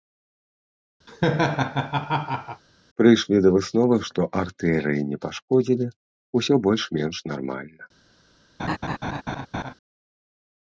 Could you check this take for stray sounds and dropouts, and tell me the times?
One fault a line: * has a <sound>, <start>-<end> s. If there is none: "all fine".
* has a laugh, 1.1-2.6 s
* has a laugh, 8.6-9.7 s